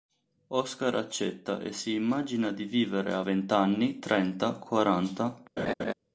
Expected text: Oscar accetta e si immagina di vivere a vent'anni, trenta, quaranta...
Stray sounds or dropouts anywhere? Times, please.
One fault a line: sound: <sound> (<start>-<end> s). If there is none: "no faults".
sound: laugh (5.6-5.9 s)